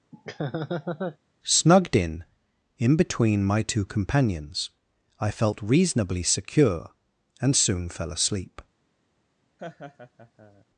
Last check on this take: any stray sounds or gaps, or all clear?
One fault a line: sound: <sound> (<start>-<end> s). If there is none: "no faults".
sound: laugh (0.1-1.2 s)
sound: laugh (9.6-10.6 s)